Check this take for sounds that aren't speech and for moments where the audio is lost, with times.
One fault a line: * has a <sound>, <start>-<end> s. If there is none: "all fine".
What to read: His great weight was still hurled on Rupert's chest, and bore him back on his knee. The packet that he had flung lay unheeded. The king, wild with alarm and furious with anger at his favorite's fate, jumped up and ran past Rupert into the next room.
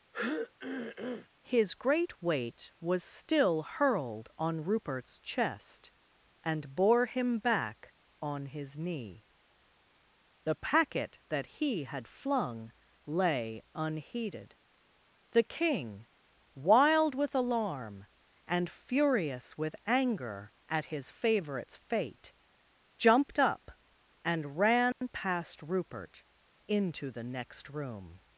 * has a throat clearing, 0.1-1.3 s
* has a dropout, 24.9-25.0 s